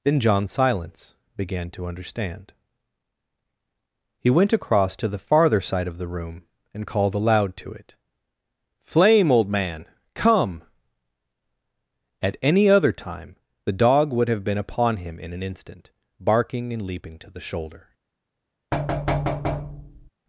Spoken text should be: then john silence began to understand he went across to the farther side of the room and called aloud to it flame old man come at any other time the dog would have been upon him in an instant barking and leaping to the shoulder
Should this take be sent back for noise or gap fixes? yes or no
yes